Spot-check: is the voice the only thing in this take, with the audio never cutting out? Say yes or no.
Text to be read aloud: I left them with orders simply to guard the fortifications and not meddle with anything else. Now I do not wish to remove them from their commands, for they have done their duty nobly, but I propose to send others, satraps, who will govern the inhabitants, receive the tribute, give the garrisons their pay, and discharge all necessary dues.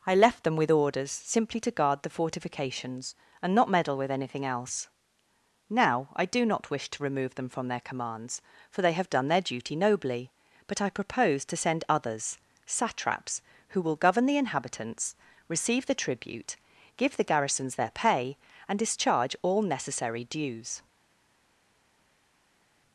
yes